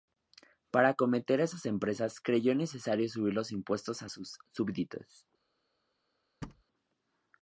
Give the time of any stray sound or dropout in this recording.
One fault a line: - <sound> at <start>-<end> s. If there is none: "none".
- thud at 6.4-6.6 s